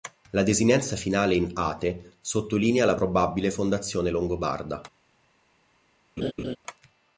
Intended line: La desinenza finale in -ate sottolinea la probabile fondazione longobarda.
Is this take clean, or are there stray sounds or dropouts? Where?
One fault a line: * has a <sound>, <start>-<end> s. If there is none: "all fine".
* has a laugh, 6.2-6.6 s